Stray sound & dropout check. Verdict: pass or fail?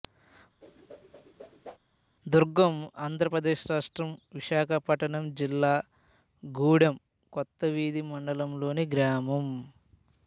fail